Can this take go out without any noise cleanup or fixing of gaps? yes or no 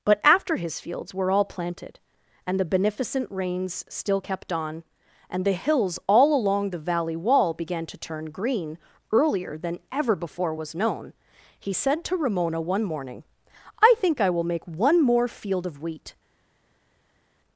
yes